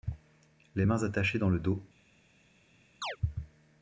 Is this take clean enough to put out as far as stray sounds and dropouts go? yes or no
no